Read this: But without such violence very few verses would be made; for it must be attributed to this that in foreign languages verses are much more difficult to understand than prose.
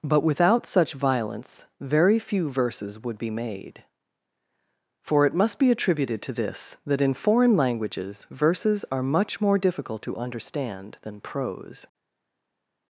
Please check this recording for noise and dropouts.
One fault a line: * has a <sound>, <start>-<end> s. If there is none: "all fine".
all fine